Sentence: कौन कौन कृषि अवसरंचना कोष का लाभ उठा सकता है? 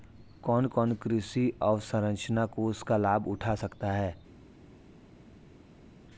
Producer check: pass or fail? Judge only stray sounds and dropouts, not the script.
pass